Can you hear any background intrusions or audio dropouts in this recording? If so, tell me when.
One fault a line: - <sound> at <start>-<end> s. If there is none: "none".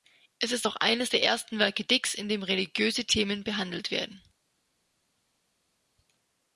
none